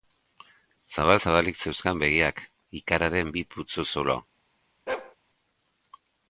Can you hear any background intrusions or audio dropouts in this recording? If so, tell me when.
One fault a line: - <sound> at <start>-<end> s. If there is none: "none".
- bark at 4.9-5.2 s